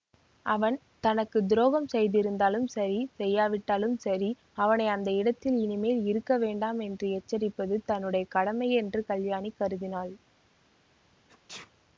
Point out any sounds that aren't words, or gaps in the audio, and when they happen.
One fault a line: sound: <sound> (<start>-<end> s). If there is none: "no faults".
sound: sneeze (11.3-11.7 s)